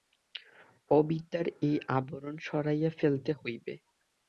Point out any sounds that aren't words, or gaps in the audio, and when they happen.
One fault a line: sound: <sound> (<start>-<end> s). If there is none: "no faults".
no faults